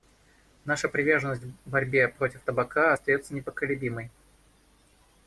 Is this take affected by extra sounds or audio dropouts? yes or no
no